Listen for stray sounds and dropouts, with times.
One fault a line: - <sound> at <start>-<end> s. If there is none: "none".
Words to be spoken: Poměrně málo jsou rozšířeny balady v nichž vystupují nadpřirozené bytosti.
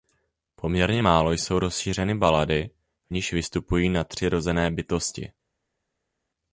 none